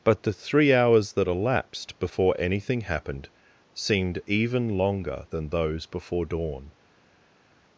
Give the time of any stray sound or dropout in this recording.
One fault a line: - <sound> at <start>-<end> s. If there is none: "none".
none